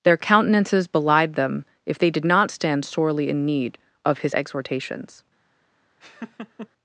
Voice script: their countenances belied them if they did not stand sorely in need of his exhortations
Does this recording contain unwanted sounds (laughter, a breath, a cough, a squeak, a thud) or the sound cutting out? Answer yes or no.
yes